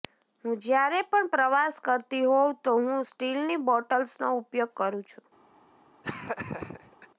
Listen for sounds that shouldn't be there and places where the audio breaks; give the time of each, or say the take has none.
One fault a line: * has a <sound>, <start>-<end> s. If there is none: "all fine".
* has a laugh, 6.0-7.1 s